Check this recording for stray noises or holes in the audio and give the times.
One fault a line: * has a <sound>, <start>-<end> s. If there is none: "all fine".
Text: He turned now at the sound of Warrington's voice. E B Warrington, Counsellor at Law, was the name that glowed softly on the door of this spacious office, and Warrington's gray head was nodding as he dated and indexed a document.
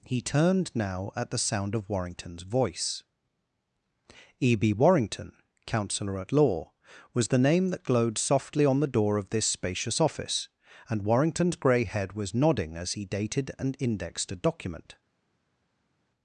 all fine